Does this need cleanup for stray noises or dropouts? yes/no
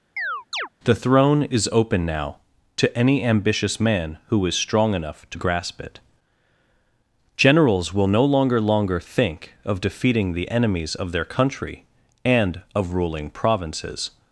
yes